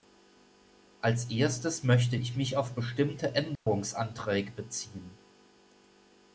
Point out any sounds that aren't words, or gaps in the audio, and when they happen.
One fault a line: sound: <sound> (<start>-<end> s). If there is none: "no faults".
sound: dropout (3.6-3.7 s)